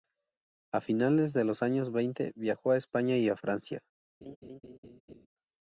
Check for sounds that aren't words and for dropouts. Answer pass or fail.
fail